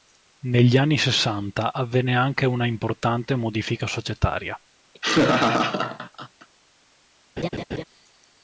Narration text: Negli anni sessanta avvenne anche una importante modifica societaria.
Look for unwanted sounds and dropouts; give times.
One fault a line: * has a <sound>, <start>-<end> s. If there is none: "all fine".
* has a laugh, 4.9-6.5 s
* has a laugh, 7.4-7.8 s